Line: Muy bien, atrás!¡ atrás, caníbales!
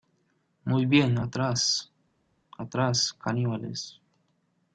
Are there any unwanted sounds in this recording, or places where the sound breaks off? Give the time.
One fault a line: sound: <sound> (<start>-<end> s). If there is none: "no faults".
no faults